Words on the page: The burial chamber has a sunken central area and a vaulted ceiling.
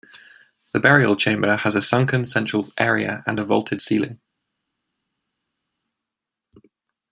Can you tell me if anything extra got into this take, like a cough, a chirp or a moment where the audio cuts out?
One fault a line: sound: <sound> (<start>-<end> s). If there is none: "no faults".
no faults